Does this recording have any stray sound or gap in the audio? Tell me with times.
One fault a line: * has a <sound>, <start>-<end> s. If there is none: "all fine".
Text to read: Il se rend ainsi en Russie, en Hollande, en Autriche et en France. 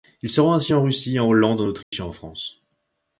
* has a dropout, 1.8-1.9 s